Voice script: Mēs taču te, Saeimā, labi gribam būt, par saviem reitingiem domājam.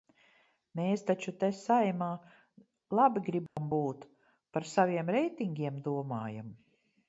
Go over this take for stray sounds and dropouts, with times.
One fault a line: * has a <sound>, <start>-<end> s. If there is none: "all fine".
* has a dropout, 3.5-3.6 s